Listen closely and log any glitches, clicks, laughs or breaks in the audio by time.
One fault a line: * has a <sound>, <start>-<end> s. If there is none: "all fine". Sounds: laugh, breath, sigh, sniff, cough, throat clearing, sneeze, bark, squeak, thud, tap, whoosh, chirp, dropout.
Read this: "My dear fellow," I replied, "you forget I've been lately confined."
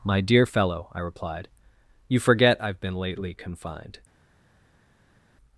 all fine